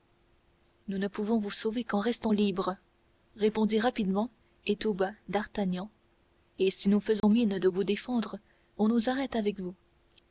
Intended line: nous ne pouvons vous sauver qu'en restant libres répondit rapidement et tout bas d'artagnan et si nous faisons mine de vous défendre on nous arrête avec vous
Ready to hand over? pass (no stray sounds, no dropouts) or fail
fail